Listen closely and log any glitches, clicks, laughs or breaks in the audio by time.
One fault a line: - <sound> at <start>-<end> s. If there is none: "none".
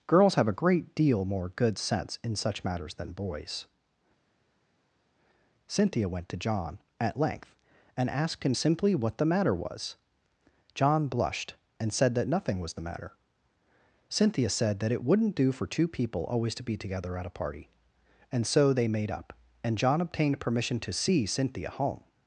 none